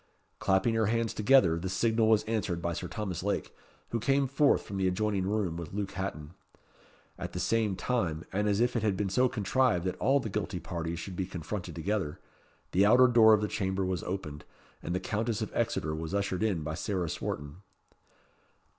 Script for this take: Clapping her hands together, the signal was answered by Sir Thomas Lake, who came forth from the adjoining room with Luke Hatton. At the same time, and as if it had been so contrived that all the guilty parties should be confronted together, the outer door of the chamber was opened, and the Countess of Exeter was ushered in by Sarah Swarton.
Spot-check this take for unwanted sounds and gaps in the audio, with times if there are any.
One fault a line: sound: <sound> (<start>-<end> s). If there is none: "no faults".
no faults